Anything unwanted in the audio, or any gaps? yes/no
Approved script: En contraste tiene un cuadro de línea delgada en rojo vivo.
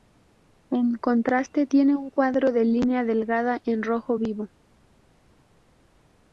no